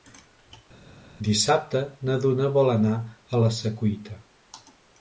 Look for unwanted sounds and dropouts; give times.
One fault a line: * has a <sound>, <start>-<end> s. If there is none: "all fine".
all fine